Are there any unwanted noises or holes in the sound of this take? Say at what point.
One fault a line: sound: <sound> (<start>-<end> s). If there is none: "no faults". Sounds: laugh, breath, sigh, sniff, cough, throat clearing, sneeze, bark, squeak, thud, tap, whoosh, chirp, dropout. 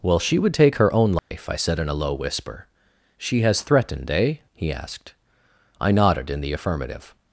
sound: dropout (1.2-1.3 s)